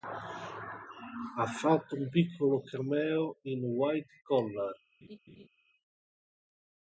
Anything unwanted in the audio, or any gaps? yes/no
yes